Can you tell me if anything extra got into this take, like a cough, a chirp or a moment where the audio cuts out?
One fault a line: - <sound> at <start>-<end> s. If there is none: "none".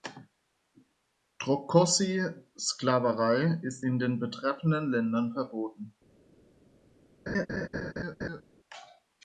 - laugh at 7.3-8.4 s